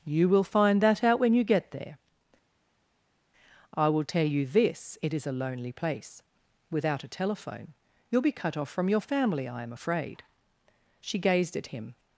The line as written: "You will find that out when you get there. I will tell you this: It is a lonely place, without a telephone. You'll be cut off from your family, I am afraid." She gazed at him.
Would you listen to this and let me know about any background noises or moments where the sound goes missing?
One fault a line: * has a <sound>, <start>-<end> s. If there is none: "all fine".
all fine